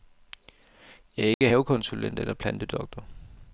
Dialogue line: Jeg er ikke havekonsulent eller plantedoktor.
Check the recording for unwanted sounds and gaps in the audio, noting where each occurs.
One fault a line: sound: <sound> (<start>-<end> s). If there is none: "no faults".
sound: dropout (1.3-1.4 s)